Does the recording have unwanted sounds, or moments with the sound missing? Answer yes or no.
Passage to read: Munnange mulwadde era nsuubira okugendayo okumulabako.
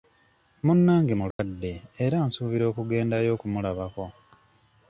yes